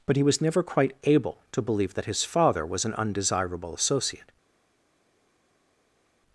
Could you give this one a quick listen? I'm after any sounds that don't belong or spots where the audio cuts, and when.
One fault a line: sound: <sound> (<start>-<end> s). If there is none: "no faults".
no faults